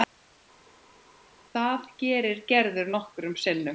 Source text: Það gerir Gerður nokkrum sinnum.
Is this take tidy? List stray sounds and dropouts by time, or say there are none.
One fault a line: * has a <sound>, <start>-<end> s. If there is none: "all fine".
all fine